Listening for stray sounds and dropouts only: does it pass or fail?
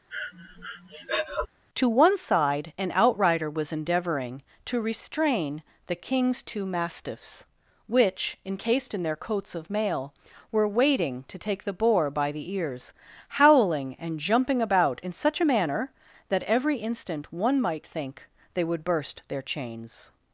fail